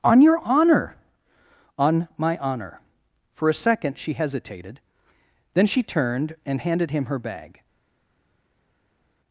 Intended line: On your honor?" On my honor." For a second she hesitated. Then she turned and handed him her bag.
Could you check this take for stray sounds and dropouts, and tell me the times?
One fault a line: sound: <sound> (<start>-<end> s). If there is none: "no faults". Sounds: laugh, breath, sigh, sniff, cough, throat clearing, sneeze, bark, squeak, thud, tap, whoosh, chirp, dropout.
no faults